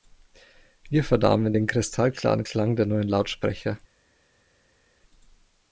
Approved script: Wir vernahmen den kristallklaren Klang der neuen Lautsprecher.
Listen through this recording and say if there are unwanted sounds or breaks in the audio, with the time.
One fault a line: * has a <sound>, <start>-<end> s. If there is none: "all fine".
all fine